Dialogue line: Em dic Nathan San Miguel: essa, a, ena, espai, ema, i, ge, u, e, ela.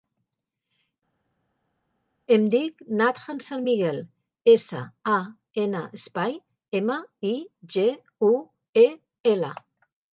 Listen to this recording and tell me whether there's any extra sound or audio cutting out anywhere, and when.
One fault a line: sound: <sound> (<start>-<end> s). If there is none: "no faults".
no faults